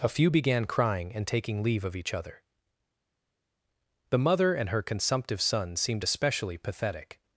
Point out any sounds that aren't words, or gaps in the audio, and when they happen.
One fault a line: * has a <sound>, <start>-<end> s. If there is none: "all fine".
all fine